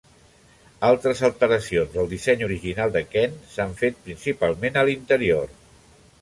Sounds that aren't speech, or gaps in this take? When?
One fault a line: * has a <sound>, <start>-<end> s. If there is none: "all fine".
all fine